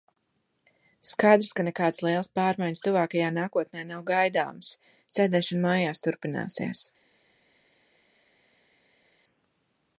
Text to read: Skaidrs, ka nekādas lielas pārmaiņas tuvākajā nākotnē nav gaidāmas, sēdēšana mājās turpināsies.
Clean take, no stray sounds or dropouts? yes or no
yes